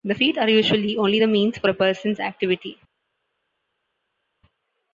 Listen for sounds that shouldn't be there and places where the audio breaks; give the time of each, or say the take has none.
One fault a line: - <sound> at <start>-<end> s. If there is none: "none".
none